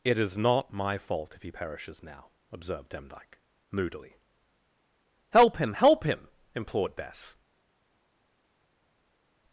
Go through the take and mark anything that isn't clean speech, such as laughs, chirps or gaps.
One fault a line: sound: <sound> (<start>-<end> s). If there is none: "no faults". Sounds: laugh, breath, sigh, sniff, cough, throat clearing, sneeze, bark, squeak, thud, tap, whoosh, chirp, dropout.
no faults